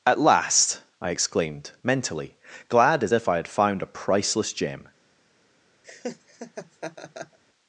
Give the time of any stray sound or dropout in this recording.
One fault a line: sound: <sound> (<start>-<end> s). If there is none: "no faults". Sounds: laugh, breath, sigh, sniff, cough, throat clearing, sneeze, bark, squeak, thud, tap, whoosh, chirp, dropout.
sound: laugh (5.8-7.4 s)